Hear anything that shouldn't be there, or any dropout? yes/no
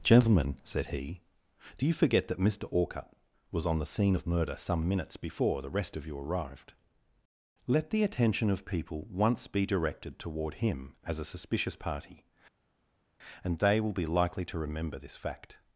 no